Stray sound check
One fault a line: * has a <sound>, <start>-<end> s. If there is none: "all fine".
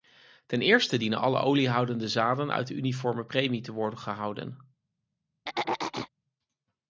* has a throat clearing, 5.5-6.1 s